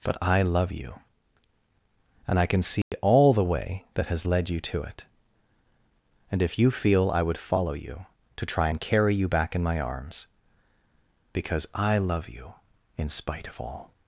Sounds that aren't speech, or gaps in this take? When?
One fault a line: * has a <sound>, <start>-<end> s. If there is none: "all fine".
* has a dropout, 2.8-2.9 s